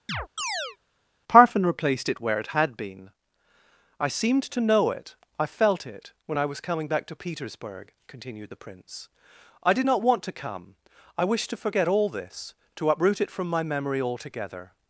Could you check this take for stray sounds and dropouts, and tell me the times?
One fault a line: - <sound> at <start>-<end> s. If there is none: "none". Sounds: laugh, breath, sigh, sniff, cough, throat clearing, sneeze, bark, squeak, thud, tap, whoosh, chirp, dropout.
- chirp at 0.1-0.8 s